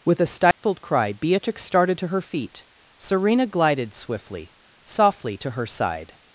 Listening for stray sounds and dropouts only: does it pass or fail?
fail